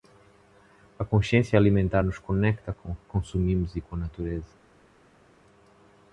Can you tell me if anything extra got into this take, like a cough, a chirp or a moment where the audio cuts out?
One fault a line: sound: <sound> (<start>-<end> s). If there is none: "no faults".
no faults